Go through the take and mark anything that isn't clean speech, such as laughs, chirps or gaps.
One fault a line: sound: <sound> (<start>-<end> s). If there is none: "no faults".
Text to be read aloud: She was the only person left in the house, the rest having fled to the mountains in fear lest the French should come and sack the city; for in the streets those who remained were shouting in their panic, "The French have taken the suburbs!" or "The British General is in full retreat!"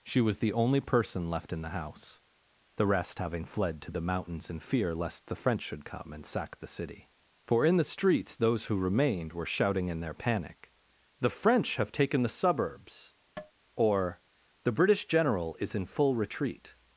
sound: tap (13.4-13.5 s)